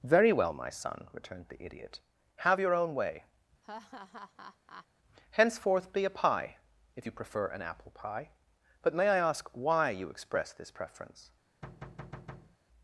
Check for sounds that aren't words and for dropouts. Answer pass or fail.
fail